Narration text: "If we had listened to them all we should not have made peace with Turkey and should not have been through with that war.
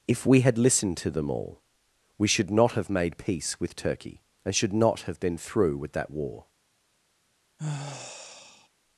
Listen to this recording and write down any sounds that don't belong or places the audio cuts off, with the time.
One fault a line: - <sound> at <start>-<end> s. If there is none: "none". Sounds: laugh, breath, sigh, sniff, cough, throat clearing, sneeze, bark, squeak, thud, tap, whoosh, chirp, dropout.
- sigh at 7.6-8.7 s